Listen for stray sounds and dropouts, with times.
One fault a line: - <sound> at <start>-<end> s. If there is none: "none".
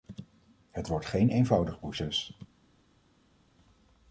none